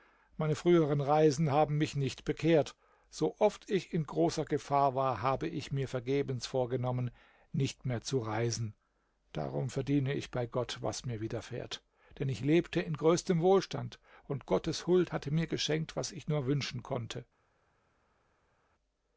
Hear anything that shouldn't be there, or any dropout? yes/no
no